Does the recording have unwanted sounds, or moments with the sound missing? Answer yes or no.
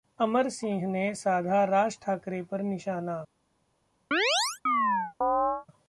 yes